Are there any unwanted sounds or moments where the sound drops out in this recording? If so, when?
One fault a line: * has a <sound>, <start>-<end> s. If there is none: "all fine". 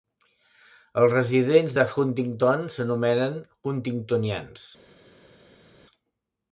all fine